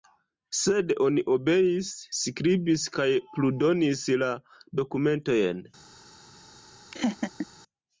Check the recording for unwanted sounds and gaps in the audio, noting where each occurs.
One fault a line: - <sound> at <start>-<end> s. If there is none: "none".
- laugh at 6.9-7.5 s